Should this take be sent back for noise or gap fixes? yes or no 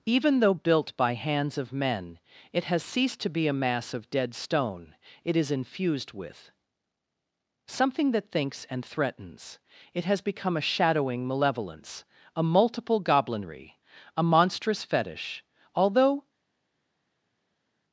no